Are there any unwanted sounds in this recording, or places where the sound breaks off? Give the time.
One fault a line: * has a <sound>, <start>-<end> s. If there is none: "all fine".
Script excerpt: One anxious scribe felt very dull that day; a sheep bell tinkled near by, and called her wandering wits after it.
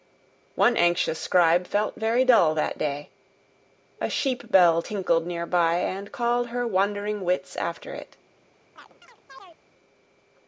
* has a chirp, 8.8-9.6 s